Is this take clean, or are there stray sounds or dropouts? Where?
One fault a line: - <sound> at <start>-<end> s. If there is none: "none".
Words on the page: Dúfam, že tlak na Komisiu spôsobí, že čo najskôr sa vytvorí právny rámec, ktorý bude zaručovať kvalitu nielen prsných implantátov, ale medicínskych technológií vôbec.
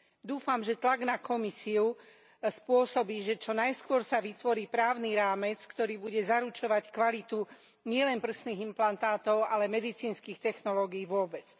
none